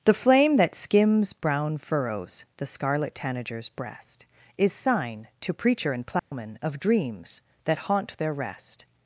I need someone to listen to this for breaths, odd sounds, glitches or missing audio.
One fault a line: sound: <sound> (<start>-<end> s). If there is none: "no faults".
sound: dropout (6.2-6.3 s)